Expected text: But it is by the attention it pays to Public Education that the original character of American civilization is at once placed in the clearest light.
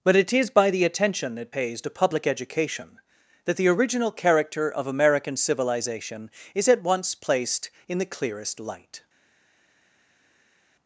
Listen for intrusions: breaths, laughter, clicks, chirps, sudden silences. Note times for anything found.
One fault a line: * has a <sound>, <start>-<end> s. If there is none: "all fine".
all fine